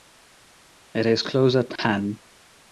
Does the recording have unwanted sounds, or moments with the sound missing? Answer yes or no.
yes